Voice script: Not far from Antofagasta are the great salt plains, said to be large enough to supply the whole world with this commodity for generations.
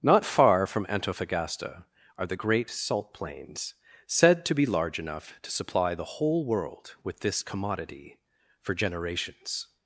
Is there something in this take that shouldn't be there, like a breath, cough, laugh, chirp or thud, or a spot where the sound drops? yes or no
no